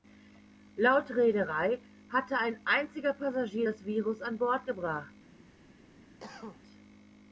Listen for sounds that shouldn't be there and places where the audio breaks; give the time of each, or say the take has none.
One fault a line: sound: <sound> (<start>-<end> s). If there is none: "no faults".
sound: cough (6.2-6.6 s)